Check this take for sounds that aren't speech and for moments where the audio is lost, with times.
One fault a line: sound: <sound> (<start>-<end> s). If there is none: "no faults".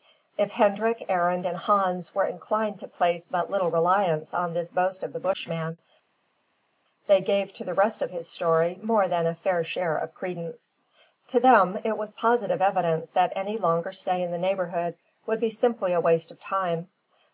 no faults